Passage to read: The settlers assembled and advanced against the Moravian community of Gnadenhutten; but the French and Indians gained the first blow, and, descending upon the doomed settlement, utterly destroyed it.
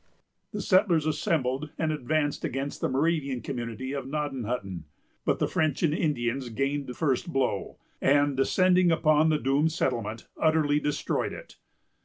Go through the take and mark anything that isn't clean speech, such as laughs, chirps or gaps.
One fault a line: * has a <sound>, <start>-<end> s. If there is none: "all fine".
all fine